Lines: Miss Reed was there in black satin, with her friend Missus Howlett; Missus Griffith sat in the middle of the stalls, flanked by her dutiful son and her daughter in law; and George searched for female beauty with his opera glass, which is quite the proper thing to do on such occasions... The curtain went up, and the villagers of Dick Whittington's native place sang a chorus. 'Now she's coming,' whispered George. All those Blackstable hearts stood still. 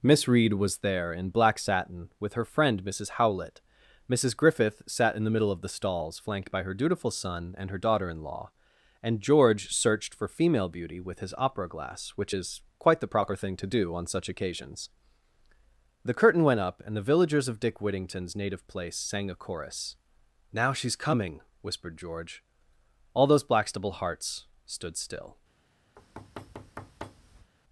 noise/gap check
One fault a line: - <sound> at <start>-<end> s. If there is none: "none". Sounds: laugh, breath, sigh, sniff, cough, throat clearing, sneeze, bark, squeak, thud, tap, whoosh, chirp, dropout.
- thud at 26.0-27.5 s